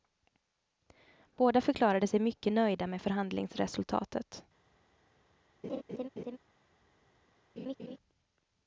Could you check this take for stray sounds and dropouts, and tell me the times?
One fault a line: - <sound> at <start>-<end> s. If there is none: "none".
- laugh at 5.6-6.4 s
- laugh at 7.6-8.0 s